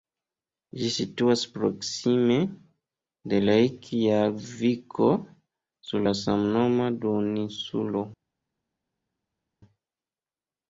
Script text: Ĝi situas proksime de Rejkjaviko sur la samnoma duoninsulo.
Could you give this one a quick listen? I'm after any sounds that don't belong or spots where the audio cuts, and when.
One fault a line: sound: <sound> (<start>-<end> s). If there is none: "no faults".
no faults